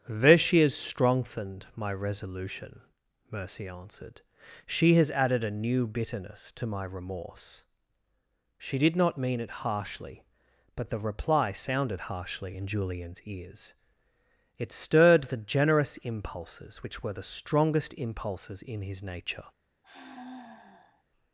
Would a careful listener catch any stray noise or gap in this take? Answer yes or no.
yes